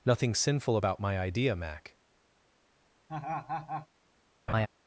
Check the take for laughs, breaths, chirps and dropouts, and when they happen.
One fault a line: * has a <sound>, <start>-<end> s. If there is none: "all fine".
* has a laugh, 3.1-3.9 s
* has a laugh, 4.5-4.7 s